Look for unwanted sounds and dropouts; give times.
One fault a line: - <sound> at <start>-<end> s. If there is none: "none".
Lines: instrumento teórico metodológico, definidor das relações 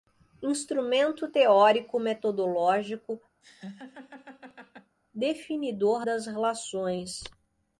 - laugh at 3.4-5.0 s